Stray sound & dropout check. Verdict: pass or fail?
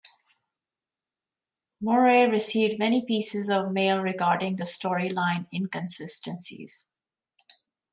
pass